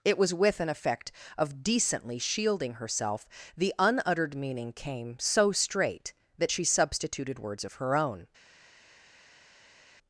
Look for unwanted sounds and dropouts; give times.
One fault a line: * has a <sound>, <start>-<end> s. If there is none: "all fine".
all fine